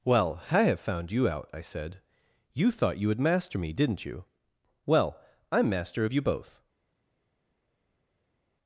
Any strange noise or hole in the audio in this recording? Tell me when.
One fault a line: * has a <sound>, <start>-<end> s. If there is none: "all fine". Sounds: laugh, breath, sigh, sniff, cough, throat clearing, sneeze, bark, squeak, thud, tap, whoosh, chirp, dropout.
all fine